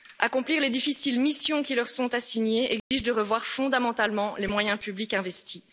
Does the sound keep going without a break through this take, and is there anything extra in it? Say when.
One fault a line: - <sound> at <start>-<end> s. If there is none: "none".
- dropout at 2.8-2.9 s